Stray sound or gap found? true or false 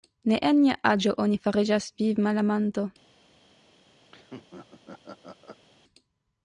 true